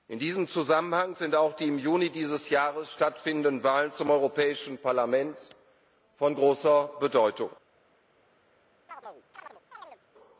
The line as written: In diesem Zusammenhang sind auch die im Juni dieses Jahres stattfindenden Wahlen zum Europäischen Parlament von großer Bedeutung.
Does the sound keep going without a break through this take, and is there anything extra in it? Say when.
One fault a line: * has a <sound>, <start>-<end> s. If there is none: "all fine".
* has a chirp, 8.9-10.0 s